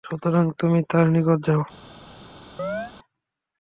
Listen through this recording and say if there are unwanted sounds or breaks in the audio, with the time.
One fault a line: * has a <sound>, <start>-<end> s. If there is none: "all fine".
* has a chirp, 2.6-2.9 s